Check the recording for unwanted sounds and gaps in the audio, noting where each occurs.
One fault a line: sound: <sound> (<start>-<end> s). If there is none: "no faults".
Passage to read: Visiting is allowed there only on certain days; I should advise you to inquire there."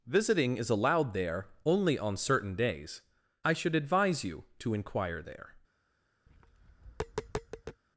sound: tap (6.3-7.8 s)